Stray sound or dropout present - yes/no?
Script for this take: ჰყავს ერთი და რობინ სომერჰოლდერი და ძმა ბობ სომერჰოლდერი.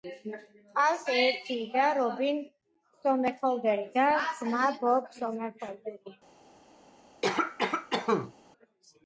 yes